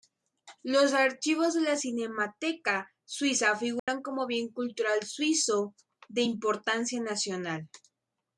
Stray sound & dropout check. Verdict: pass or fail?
fail